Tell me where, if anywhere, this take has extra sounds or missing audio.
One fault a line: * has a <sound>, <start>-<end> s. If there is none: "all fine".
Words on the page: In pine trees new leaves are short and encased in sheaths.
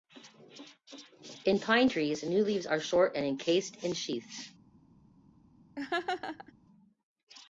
* has a laugh, 5.8-6.5 s